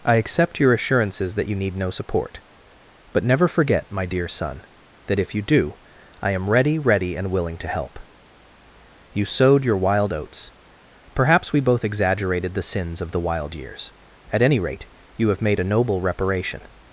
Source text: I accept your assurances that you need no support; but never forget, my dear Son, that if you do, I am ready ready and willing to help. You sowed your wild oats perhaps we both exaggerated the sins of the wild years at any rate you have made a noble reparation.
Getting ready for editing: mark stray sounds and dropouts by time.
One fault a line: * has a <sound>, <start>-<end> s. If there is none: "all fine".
all fine